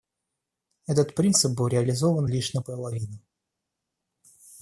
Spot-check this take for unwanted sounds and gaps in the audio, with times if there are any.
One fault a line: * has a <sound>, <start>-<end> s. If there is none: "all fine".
all fine